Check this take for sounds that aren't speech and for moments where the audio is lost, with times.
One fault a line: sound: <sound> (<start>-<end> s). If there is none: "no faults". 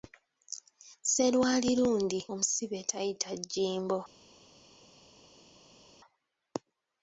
no faults